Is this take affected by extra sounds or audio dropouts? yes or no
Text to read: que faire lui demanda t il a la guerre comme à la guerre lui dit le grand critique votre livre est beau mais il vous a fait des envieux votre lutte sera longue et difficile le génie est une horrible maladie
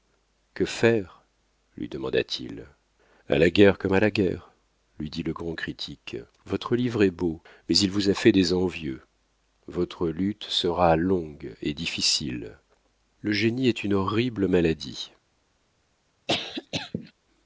yes